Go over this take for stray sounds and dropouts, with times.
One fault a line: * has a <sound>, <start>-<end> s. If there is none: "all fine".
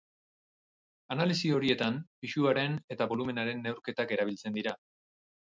all fine